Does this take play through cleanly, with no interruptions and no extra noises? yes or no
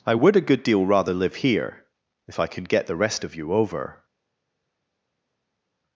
yes